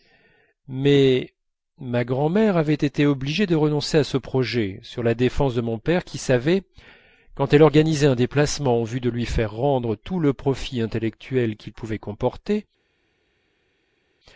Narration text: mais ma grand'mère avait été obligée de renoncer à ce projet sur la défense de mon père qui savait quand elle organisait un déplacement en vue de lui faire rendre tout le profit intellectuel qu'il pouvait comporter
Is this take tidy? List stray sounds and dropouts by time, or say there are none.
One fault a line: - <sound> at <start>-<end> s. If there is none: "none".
none